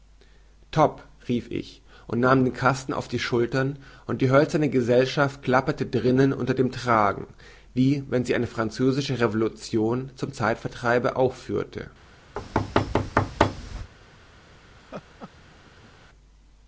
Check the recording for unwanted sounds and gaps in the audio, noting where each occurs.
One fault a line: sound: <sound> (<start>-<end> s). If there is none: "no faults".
sound: thud (12.3-13.9 s)
sound: laugh (14.8-15.9 s)